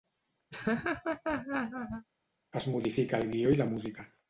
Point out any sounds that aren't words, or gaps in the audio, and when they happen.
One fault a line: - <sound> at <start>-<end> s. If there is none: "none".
- laugh at 0.5-2.1 s